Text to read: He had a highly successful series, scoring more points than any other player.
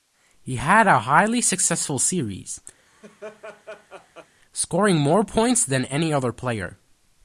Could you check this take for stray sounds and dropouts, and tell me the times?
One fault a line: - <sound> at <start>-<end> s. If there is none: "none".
- laugh at 2.8-4.3 s